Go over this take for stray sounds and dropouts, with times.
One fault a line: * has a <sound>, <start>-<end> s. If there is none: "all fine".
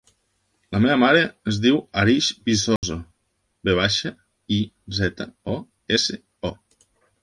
* has a dropout, 2.8-2.8 s